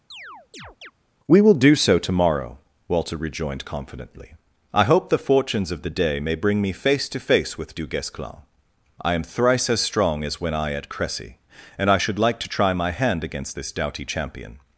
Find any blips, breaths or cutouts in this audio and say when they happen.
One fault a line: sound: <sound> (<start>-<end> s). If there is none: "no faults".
sound: chirp (0.1-0.9 s)